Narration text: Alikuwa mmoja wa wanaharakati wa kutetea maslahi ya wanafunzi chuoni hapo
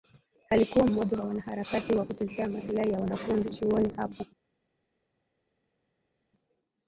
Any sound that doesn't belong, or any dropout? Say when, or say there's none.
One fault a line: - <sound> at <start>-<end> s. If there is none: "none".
none